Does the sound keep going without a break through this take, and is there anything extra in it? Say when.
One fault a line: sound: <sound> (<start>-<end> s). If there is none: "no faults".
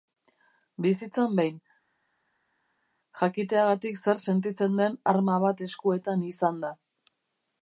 no faults